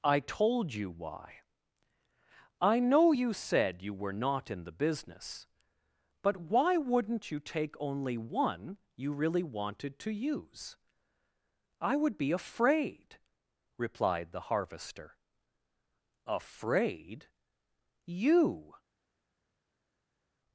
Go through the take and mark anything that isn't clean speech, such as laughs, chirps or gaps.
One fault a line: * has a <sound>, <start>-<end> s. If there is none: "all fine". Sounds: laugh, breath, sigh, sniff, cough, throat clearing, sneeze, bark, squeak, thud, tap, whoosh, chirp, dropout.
all fine